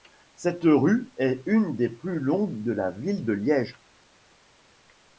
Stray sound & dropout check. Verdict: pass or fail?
pass